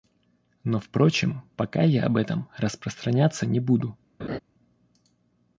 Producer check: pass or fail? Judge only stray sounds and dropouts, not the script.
fail